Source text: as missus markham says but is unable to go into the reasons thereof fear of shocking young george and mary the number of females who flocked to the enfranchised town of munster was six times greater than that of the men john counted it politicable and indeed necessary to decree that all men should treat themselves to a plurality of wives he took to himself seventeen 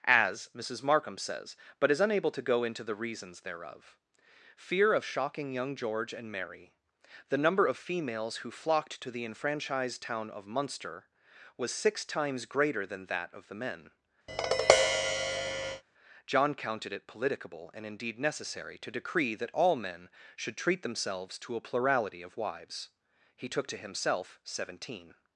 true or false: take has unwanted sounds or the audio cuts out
true